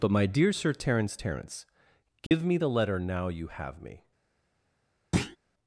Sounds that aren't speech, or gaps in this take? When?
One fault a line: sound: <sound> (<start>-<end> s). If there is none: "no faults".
sound: dropout (2.3-2.3 s)
sound: thud (5.1-5.4 s)